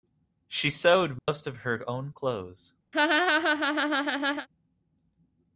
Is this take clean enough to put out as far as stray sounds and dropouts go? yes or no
no